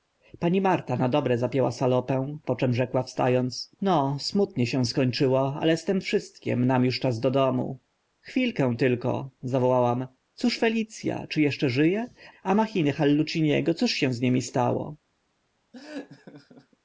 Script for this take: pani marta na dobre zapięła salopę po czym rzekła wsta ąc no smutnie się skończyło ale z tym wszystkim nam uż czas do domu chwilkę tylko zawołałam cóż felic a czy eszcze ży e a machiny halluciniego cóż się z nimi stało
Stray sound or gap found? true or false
true